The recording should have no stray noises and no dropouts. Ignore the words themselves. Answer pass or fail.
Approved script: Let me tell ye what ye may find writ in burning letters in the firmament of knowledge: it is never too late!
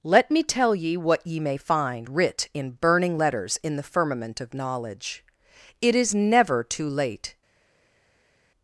pass